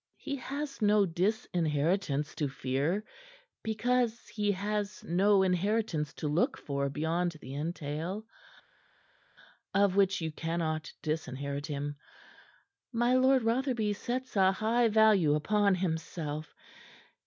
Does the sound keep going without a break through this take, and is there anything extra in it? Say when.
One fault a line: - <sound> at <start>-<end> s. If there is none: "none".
none